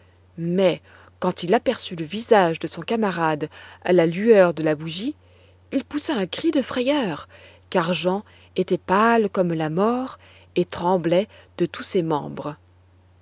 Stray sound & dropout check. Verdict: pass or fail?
pass